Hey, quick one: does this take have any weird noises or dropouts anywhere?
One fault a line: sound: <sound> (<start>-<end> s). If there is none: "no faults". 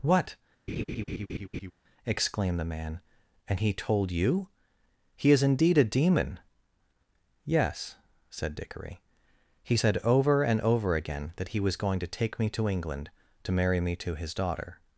sound: laugh (0.7-1.7 s)